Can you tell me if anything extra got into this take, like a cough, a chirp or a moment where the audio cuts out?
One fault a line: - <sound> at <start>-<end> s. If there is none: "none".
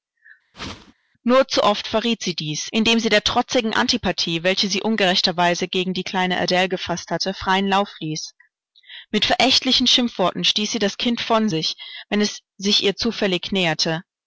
- whoosh at 0.5-0.9 s